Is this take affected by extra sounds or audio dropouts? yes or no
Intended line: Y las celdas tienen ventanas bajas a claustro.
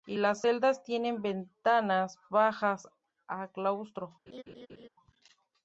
yes